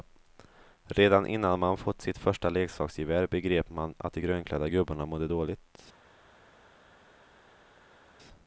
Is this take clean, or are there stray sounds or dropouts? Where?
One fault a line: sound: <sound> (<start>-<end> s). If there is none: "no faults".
no faults